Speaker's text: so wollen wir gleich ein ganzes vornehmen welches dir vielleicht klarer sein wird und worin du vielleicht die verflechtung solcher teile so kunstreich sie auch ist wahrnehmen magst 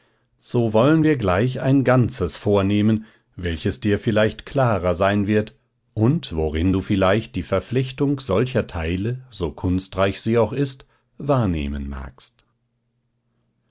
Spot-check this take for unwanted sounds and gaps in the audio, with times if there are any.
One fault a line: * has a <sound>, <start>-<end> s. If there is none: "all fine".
all fine